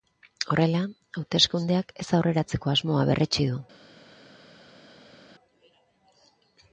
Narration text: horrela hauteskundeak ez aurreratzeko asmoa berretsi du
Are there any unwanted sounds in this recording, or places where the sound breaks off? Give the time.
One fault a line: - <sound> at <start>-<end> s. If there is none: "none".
none